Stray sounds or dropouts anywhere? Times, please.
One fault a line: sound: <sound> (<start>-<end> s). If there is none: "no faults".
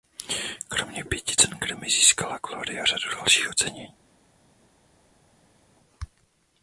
no faults